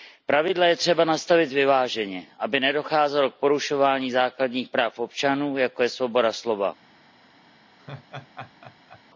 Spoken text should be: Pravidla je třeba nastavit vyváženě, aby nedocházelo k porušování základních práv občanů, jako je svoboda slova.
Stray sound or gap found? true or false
true